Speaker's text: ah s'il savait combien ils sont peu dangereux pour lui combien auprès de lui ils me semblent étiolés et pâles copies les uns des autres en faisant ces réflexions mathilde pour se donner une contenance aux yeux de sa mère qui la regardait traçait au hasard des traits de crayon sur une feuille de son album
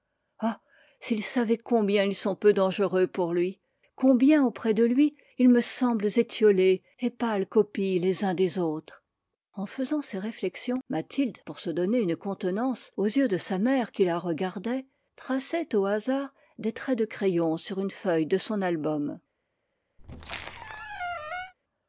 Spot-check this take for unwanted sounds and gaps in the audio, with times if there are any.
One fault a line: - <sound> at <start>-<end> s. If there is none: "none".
- squeak at 20.0-21.5 s